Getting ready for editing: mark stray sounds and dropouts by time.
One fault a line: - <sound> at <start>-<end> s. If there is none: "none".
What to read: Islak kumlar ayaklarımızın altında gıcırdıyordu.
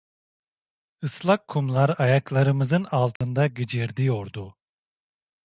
- dropout at 3.2-3.2 s